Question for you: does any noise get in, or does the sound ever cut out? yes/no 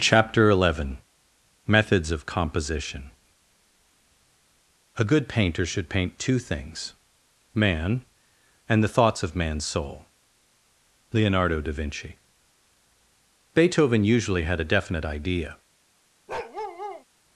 yes